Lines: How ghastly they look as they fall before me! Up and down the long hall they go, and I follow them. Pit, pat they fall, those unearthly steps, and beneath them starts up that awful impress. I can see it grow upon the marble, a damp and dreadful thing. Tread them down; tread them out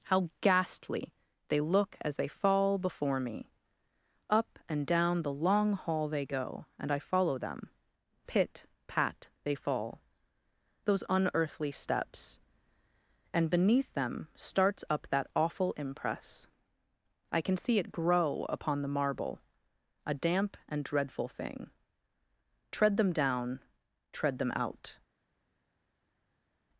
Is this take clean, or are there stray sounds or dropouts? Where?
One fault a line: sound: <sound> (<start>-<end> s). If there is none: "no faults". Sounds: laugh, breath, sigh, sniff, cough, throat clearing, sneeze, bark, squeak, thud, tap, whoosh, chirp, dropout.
no faults